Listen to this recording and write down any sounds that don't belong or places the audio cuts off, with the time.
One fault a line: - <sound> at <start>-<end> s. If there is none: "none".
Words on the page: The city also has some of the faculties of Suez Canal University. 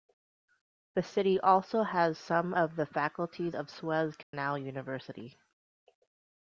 - dropout at 4.2-4.3 s